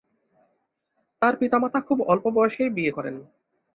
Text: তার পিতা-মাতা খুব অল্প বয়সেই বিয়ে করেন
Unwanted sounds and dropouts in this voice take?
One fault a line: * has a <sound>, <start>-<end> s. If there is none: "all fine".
all fine